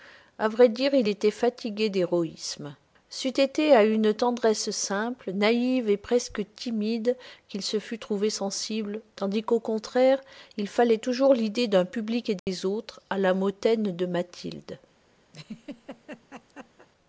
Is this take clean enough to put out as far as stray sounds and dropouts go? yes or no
no